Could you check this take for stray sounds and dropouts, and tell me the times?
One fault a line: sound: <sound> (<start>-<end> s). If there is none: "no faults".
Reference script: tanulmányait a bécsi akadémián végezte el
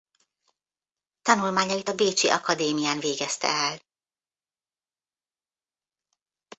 no faults